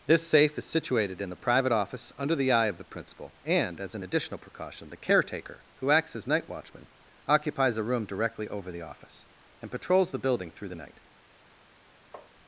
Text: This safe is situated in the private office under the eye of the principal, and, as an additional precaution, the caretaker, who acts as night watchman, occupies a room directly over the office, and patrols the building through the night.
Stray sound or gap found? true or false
true